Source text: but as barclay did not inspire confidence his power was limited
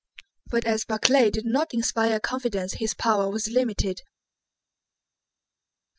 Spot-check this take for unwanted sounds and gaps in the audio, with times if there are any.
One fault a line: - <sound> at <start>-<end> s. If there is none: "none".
none